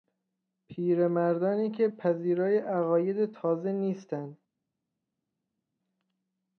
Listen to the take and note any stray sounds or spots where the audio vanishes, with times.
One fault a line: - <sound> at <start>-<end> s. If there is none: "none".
none